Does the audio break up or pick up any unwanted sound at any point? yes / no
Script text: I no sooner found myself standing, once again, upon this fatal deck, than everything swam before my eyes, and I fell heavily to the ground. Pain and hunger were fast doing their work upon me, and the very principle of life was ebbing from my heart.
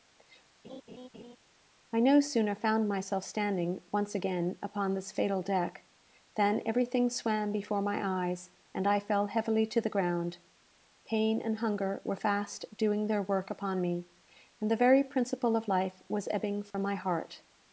yes